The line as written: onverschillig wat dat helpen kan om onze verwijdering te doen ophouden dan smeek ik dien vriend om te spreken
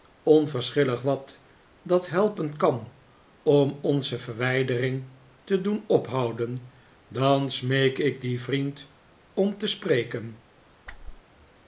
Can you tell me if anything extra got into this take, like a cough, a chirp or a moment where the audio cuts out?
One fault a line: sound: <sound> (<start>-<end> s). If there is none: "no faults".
sound: whoosh (10.9-11.2 s)